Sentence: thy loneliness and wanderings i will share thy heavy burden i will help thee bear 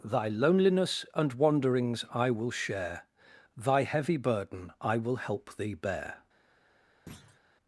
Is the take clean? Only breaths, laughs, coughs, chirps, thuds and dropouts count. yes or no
no